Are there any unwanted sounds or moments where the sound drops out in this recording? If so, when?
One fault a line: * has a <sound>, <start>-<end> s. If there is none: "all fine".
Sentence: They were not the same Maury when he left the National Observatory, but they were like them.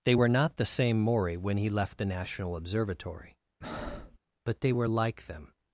* has a breath, 3.6-4.2 s